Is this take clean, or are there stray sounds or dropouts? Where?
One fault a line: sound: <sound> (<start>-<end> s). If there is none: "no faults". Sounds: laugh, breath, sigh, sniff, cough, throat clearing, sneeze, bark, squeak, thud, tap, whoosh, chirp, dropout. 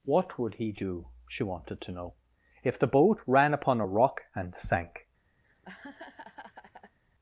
sound: laugh (5.4-7.0 s)